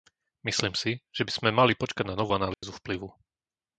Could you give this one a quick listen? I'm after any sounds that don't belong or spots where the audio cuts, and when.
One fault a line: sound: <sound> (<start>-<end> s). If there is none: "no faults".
sound: dropout (2.5-2.6 s)